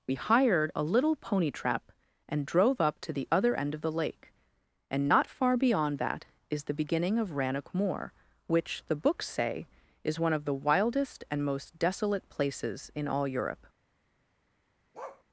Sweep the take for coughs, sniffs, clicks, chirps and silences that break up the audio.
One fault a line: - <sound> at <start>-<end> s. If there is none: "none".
- bark at 14.9-15.2 s